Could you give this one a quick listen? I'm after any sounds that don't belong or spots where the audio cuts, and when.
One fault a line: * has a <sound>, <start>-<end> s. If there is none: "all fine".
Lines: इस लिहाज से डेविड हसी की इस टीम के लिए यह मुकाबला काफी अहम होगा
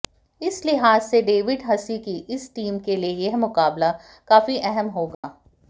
* has a dropout, 5.1-5.2 s